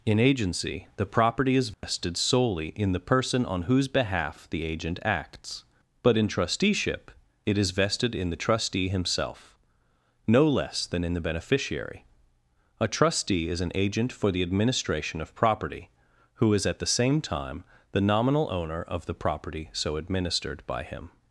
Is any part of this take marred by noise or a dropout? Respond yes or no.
yes